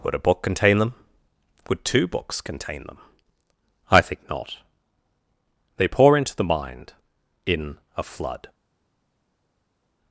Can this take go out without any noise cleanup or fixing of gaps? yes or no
yes